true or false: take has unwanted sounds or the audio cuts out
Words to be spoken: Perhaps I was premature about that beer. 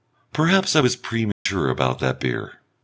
true